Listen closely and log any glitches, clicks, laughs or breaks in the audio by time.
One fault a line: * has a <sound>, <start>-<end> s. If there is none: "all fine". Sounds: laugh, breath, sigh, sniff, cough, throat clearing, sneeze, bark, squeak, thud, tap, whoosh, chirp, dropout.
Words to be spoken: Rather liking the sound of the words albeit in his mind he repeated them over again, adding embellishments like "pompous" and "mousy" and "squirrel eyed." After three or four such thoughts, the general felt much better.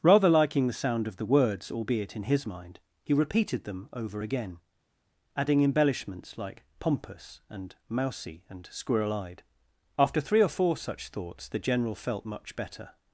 all fine